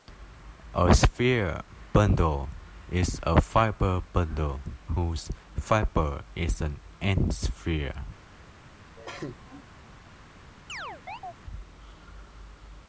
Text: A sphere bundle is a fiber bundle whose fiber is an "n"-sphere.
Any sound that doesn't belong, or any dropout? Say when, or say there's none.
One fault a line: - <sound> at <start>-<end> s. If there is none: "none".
- cough at 9.0-9.6 s
- chirp at 10.7-11.3 s